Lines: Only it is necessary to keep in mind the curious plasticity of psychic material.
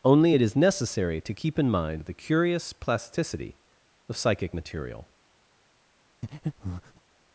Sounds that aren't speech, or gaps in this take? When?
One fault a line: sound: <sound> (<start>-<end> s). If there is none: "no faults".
sound: breath (6.2-7.0 s)